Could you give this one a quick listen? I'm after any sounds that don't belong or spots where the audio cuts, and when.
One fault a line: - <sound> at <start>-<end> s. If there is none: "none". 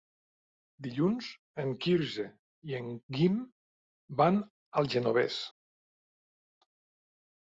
none